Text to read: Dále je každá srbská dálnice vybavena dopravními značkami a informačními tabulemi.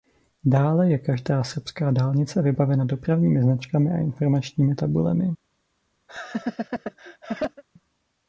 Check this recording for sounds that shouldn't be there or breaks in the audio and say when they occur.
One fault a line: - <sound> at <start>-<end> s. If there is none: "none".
- laugh at 6.1-7.6 s